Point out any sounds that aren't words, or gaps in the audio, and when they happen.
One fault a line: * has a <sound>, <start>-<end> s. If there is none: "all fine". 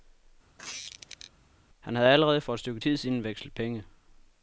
* has a squeak, 0.6-1.3 s